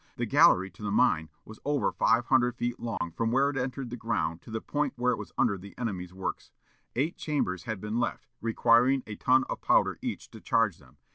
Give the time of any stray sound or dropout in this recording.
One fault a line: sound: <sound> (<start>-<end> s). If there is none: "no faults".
sound: dropout (3.0-3.0 s)